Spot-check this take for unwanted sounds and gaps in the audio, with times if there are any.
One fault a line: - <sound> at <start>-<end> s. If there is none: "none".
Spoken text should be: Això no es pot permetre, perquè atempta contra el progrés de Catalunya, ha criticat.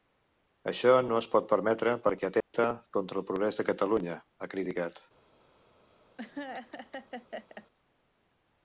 - dropout at 2.4-2.5 s
- laugh at 6.2-7.7 s